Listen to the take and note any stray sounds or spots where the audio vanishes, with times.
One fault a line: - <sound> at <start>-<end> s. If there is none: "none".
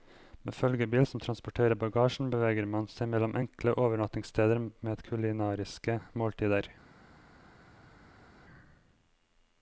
none